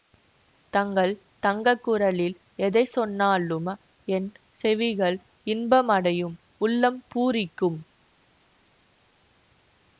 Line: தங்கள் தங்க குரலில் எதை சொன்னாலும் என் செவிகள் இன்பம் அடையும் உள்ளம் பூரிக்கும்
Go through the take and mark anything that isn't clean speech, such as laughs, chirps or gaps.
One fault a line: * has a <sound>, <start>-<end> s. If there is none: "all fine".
all fine